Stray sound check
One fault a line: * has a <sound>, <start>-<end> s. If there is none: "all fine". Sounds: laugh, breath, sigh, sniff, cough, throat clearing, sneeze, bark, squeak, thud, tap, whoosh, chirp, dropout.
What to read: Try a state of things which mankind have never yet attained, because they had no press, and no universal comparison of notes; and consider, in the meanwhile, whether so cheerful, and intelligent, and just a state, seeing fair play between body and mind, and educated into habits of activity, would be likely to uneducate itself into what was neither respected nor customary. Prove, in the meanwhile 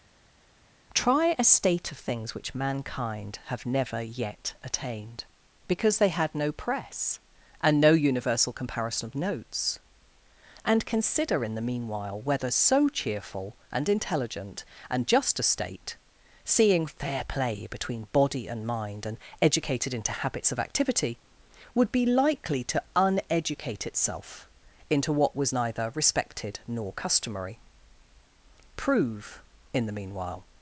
all fine